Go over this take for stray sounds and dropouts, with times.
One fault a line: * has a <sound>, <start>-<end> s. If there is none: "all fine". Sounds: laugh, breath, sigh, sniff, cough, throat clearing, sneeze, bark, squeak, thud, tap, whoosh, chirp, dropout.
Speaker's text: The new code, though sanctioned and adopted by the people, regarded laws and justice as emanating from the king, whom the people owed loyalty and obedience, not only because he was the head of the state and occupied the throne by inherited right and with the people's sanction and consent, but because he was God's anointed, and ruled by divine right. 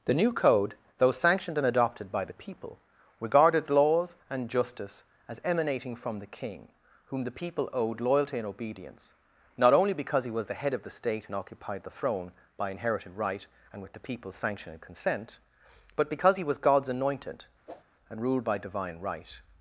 * has a whoosh, 17.7-17.8 s